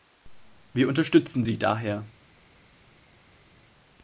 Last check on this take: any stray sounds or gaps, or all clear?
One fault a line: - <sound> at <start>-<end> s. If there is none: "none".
none